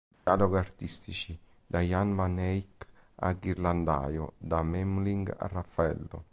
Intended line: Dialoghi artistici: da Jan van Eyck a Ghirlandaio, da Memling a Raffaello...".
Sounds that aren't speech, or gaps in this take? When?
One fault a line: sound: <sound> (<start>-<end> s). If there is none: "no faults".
sound: dropout (0.1-0.3 s)